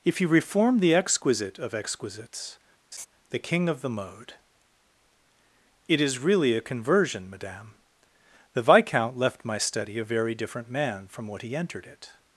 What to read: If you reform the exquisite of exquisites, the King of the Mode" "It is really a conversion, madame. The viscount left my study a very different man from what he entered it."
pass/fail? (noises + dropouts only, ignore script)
fail